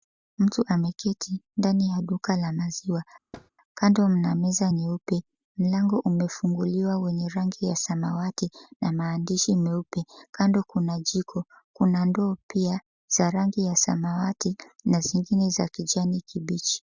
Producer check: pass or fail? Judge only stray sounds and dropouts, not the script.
fail